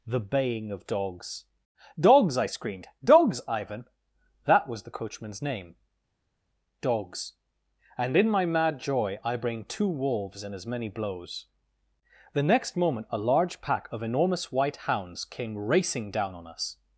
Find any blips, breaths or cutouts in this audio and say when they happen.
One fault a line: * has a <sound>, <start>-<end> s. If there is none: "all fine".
all fine